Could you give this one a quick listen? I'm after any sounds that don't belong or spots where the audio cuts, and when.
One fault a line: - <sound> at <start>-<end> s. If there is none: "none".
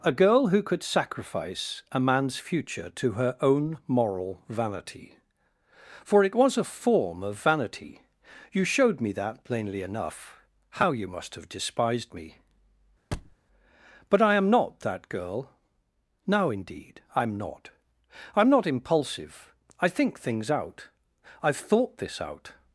- thud at 13.1-13.4 s